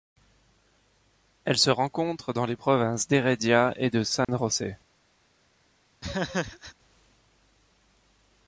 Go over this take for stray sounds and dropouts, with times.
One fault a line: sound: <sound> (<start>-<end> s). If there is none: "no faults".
sound: dropout (4.2-4.3 s)
sound: laugh (6.0-6.7 s)